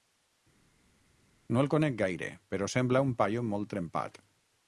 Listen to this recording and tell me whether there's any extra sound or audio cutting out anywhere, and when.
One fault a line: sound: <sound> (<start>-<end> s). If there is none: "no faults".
no faults